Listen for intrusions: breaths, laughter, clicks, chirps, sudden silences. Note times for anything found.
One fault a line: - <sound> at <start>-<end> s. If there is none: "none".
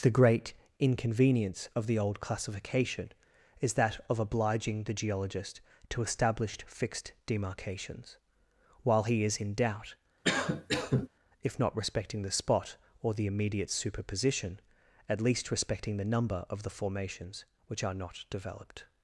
- cough at 10.2-11.1 s